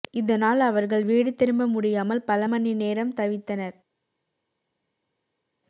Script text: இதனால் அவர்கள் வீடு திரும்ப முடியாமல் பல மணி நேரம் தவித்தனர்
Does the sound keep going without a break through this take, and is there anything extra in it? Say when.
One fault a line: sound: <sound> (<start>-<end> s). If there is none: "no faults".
no faults